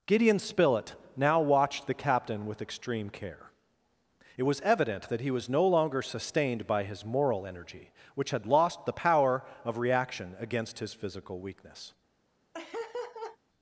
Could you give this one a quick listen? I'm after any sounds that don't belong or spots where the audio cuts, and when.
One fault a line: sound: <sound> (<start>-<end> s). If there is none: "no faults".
sound: laugh (12.5-13.4 s)